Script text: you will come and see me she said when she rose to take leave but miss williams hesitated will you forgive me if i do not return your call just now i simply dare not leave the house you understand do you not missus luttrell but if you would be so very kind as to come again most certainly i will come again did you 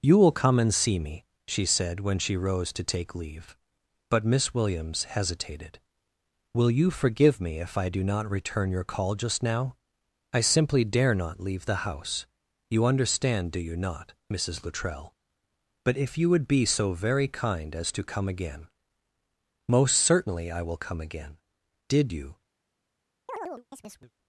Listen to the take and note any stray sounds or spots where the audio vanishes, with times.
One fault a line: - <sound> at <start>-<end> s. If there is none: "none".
- chirp at 23.3-24.1 s